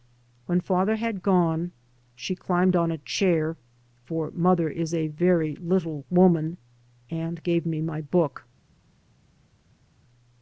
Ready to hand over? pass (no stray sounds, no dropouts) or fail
pass